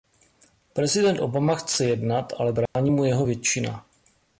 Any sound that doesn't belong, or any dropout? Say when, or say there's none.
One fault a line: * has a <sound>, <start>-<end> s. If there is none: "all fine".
* has a dropout, 2.7-2.8 s